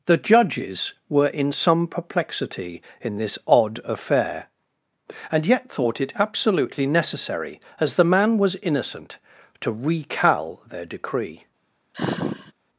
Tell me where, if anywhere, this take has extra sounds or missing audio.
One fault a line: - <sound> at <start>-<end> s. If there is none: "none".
- sigh at 11.9-12.5 s